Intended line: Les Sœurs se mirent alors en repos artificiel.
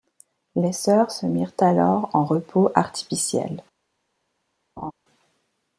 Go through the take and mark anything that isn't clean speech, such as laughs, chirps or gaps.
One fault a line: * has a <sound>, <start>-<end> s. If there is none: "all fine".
* has a laugh, 4.8-4.9 s